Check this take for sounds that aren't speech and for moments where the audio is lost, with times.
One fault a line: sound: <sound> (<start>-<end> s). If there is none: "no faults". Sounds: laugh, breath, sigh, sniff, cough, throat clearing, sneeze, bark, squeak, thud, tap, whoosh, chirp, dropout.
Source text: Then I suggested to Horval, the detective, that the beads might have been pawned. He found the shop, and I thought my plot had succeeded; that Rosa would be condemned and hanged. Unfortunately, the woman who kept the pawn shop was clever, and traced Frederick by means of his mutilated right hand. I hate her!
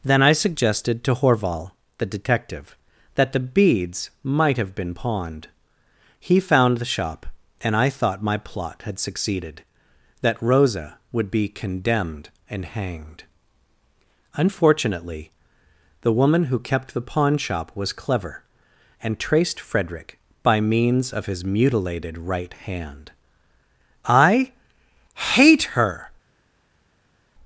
no faults